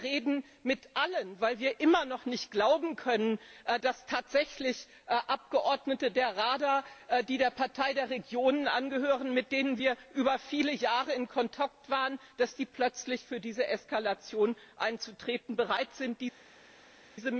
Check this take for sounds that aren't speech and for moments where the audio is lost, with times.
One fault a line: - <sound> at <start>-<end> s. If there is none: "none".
none